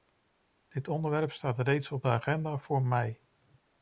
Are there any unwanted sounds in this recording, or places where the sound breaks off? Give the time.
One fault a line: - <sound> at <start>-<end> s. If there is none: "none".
none